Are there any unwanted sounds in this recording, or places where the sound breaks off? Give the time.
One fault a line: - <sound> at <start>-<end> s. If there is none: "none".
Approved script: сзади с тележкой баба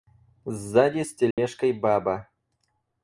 - dropout at 1.3-1.4 s